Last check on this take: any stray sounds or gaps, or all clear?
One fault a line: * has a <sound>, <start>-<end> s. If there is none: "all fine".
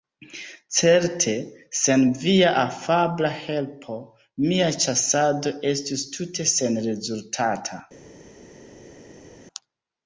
all fine